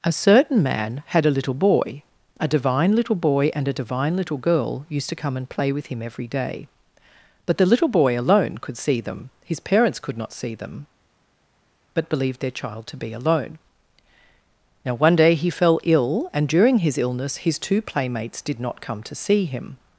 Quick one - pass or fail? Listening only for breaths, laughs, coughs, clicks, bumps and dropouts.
pass